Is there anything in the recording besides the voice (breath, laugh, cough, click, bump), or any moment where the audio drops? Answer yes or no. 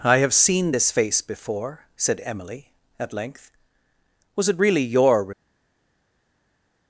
no